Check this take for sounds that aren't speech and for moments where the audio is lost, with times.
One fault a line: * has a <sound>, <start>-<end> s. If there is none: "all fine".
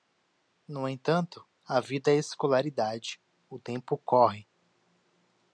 all fine